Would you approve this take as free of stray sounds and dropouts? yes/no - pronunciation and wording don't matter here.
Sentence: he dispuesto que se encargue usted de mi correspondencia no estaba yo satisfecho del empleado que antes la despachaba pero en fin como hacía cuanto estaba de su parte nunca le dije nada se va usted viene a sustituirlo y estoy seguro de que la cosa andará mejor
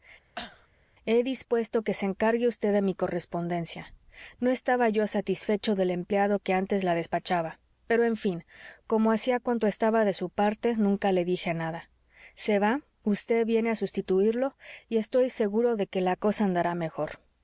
no